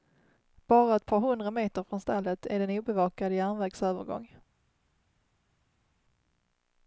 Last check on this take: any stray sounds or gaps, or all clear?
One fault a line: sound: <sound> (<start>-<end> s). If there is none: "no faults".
no faults